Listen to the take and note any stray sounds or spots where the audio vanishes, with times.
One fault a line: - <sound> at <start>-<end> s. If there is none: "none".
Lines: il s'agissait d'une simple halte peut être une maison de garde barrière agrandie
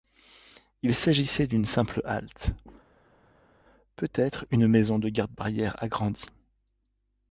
none